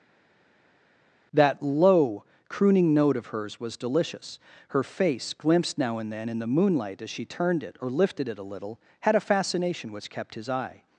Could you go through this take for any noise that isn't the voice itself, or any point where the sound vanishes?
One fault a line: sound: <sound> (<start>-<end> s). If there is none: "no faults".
no faults